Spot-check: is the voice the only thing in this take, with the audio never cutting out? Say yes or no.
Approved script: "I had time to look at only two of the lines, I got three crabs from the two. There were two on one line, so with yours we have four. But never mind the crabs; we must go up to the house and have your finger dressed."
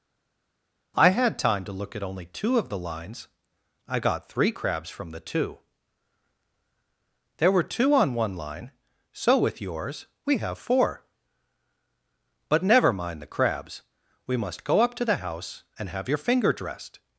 yes